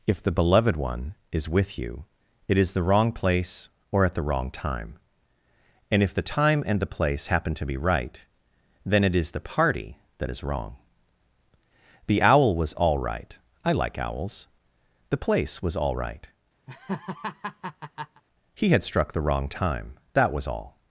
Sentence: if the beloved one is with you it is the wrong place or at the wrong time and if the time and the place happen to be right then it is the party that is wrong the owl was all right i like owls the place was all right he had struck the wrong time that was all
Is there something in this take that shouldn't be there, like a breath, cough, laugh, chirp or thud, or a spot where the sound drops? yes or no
yes